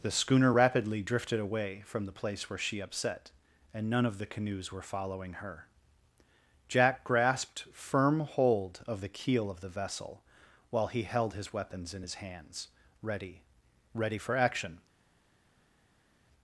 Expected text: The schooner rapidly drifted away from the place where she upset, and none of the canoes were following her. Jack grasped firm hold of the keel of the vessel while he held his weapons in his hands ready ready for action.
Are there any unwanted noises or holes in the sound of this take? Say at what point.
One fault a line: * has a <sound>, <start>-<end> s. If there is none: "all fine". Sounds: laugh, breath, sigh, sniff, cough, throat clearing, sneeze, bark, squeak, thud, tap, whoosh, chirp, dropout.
all fine